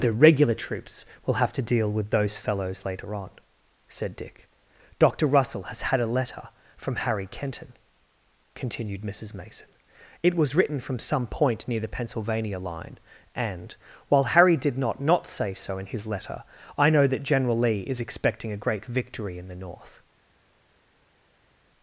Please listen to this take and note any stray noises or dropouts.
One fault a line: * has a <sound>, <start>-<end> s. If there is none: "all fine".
all fine